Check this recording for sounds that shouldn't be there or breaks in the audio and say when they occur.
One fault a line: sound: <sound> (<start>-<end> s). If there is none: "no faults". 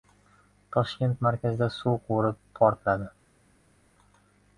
no faults